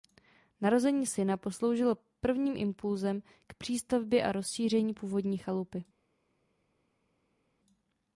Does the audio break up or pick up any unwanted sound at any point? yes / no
no